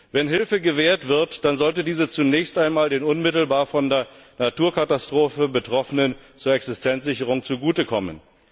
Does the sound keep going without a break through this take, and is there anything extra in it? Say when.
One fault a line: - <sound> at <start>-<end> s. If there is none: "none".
none